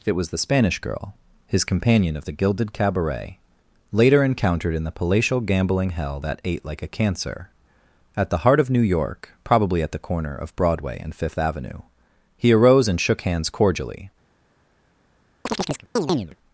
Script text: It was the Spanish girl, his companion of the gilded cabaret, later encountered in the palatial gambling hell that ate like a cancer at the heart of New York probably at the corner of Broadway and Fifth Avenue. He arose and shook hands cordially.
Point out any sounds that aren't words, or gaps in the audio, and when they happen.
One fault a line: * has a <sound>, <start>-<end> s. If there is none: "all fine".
* has a chirp, 15.5-16.4 s